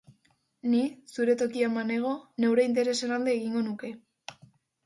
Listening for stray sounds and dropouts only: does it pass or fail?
pass